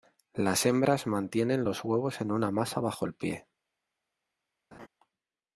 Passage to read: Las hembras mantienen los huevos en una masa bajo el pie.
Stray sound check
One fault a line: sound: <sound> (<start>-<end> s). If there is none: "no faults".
sound: laugh (4.7-4.9 s)